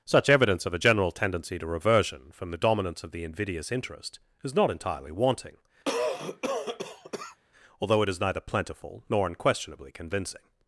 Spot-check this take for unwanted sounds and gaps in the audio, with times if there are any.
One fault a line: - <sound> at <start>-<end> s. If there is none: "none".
- cough at 5.8-7.4 s